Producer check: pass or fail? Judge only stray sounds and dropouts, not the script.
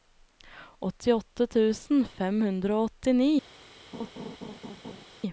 fail